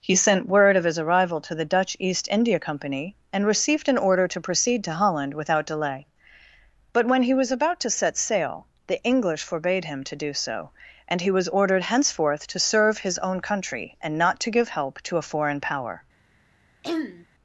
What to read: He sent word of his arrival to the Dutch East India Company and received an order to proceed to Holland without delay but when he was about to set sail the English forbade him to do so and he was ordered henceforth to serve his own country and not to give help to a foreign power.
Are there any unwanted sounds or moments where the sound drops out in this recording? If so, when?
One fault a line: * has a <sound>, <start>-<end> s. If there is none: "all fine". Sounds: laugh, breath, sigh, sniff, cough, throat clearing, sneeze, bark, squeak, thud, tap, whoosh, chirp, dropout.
* has a throat clearing, 16.8-17.3 s